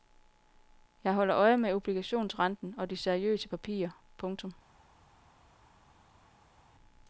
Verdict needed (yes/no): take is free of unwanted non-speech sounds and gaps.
yes